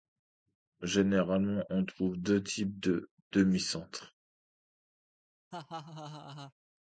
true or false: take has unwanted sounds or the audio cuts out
true